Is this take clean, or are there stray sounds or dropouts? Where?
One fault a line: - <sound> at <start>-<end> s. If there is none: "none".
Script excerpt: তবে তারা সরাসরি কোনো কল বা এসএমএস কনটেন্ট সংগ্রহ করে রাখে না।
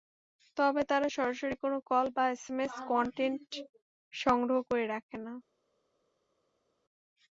none